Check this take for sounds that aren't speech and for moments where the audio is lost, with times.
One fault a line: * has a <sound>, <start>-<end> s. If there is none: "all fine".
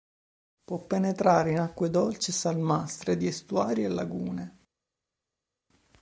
all fine